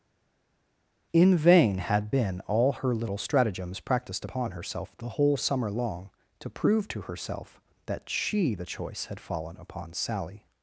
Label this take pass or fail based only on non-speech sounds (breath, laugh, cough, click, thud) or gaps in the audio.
pass